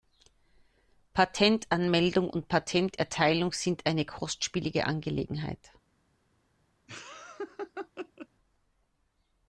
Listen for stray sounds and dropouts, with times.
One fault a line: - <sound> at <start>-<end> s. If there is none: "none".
- laugh at 6.9-8.3 s